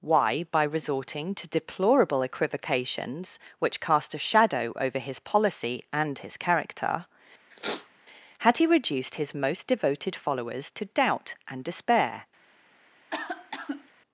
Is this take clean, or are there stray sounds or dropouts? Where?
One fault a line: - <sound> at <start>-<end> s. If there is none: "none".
- sniff at 7.5-8.0 s
- cough at 13.1-13.9 s